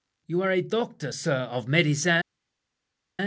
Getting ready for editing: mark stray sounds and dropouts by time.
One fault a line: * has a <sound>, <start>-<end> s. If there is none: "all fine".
all fine